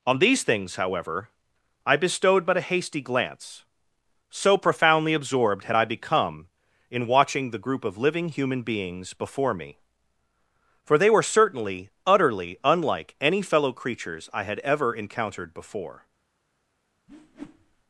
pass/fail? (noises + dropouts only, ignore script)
fail